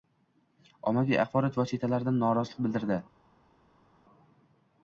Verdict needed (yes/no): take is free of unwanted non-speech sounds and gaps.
yes